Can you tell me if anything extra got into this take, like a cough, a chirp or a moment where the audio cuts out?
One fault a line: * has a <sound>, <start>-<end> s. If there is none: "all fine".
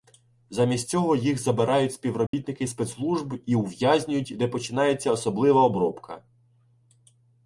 * has a dropout, 2.3-2.3 s